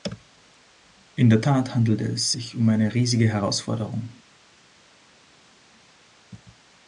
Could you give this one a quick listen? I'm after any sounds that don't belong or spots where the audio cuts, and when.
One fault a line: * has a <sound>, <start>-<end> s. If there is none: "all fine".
all fine